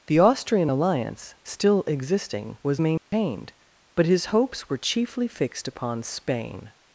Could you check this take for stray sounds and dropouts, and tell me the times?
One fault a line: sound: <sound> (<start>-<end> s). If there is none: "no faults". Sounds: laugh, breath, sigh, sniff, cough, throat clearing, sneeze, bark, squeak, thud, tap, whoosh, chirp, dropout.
sound: dropout (3.0-3.1 s)